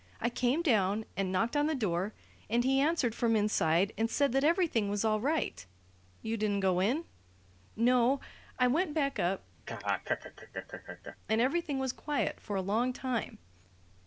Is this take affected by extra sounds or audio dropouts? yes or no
yes